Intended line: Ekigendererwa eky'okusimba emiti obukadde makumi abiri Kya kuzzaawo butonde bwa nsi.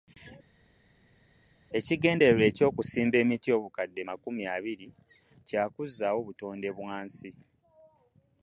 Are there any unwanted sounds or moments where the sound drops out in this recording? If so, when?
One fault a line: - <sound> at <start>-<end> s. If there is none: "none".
none